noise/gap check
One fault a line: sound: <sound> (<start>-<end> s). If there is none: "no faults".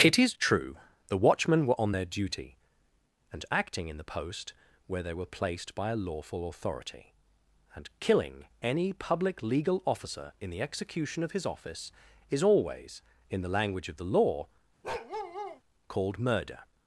sound: bark (14.8-15.6 s)